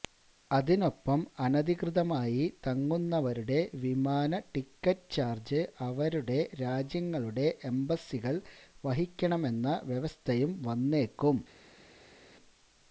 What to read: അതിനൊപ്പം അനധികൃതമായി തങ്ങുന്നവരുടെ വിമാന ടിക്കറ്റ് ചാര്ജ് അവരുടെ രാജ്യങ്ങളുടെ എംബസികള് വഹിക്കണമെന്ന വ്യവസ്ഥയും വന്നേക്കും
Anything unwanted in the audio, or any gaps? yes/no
no